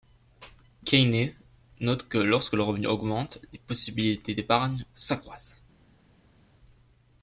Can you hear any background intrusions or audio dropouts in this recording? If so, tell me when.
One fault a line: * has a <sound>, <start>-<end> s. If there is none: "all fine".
all fine